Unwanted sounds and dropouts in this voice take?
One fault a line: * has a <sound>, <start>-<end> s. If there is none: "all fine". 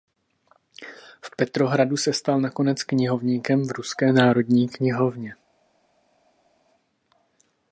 all fine